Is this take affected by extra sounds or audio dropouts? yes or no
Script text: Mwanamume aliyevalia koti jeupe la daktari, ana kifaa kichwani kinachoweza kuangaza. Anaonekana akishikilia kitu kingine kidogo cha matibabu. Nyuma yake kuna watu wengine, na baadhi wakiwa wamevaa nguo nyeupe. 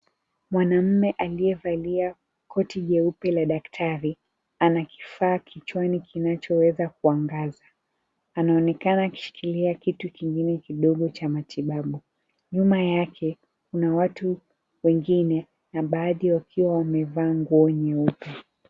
no